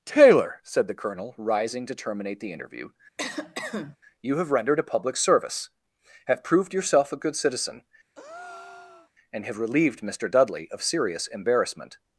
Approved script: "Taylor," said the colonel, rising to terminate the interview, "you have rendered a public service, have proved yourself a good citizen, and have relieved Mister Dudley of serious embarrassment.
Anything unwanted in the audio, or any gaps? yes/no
yes